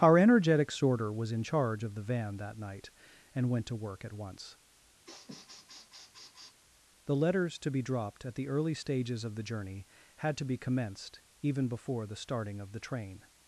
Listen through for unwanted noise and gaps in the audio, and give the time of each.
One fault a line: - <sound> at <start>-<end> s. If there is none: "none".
- sniff at 5.0-6.6 s